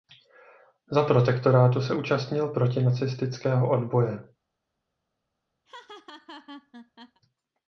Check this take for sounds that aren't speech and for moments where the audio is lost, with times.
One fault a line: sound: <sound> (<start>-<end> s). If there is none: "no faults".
sound: laugh (5.7-7.2 s)